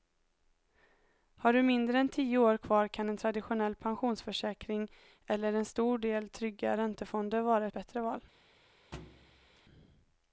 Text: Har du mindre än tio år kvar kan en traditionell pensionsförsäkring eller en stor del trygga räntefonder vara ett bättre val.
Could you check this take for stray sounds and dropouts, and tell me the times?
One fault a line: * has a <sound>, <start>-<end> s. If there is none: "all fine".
* has a thud, 8.9-9.6 s